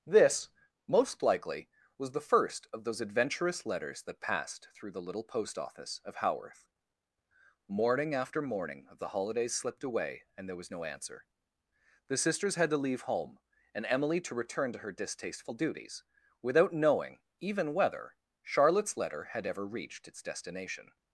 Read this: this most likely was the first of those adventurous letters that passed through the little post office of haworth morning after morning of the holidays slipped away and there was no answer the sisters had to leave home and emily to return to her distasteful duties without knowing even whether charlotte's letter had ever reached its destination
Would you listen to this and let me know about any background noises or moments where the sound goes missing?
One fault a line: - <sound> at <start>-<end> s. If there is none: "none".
none